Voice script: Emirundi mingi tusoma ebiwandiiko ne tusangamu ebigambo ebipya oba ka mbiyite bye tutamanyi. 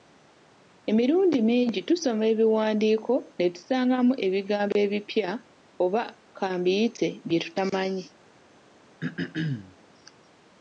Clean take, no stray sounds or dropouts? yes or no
no